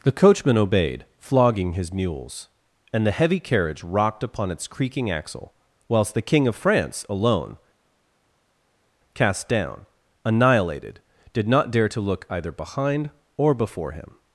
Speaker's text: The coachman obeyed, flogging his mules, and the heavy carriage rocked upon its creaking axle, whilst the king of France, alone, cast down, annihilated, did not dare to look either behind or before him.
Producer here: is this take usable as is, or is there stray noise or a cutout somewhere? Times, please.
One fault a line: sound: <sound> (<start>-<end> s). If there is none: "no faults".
no faults